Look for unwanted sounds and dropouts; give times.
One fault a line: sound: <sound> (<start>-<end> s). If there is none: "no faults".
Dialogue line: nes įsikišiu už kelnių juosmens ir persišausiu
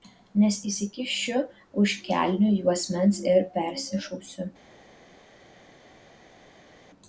no faults